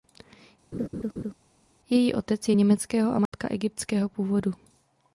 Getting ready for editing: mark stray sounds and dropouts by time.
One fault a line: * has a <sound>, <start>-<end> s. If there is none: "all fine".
* has a laugh, 0.7-1.3 s
* has a dropout, 3.3-3.3 s